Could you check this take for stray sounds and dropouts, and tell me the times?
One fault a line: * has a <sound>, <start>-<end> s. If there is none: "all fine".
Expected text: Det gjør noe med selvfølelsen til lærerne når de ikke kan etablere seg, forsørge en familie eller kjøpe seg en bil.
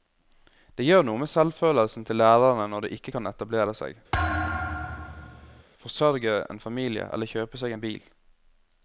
* has a thud, 4.1-5.6 s